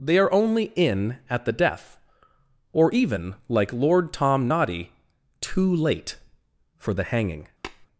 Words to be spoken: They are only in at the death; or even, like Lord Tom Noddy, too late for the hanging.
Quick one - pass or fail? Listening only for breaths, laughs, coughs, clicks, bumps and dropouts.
fail